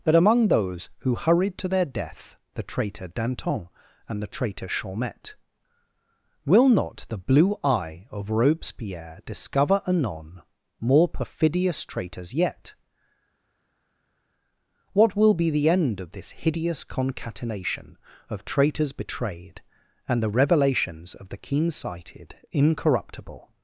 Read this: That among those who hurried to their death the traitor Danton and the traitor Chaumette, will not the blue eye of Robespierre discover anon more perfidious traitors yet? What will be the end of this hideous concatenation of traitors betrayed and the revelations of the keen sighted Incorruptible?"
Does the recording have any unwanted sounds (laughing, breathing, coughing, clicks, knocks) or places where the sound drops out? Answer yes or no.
no